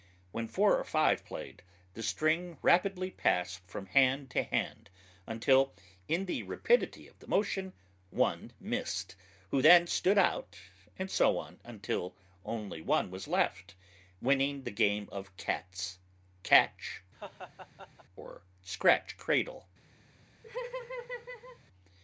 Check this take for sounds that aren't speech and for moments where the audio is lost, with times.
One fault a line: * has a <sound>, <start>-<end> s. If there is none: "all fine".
* has a laugh, 17.1-18.1 s
* has a laugh, 20.4-21.6 s